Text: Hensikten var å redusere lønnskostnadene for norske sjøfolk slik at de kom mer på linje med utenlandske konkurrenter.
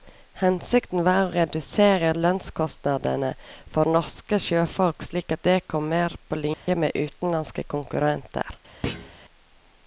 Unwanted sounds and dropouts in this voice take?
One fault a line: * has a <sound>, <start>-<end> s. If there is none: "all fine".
* has a dropout, 6.5-6.7 s
* has a thud, 8.8-9.1 s